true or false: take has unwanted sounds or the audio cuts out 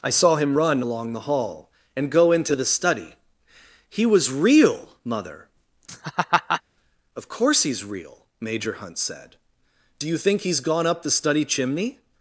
true